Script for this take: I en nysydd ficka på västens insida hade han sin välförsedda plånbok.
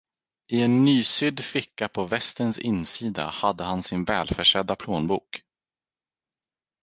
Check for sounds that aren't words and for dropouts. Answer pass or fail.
pass